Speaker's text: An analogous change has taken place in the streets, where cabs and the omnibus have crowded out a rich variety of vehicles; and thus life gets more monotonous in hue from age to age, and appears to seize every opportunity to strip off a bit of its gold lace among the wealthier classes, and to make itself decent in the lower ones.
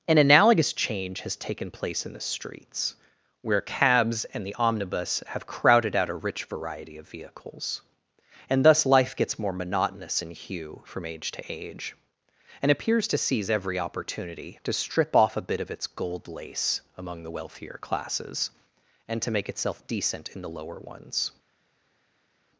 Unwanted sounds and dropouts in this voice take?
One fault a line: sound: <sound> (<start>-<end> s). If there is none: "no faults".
no faults